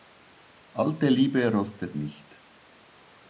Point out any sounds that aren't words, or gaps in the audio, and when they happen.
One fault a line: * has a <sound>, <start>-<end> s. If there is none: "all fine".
all fine